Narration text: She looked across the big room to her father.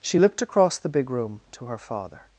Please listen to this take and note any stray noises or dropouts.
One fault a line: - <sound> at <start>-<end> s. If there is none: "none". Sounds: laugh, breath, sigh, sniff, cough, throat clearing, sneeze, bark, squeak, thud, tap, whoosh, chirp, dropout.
none